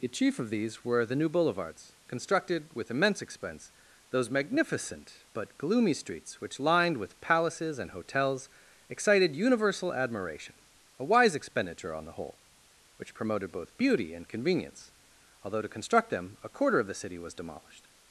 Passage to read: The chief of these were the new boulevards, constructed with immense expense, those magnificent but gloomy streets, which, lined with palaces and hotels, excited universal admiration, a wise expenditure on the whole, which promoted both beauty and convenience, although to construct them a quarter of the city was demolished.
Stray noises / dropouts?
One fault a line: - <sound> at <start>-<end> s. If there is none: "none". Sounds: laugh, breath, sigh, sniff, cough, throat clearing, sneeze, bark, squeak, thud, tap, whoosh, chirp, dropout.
none